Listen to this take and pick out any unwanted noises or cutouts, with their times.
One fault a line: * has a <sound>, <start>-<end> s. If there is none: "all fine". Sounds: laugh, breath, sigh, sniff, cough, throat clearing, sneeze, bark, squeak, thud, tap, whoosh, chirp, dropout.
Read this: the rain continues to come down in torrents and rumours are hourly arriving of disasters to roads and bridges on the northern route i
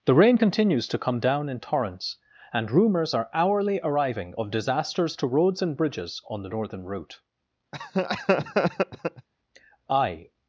* has a laugh, 7.7-9.3 s